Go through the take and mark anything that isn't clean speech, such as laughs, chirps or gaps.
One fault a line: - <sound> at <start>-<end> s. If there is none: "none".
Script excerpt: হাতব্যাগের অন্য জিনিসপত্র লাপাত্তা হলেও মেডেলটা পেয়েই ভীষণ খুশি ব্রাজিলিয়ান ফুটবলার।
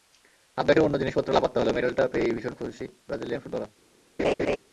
- laugh at 4.2-4.6 s